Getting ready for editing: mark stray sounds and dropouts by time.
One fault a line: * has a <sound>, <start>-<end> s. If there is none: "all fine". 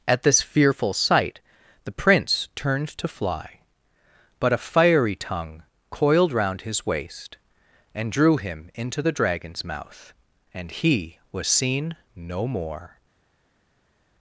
all fine